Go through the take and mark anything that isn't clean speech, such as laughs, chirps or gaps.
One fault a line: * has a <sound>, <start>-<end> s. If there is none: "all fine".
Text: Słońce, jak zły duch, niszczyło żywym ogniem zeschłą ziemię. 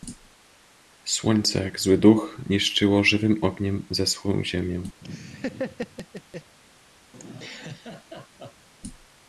* has a laugh, 5.0-6.6 s
* has a laugh, 7.1-8.7 s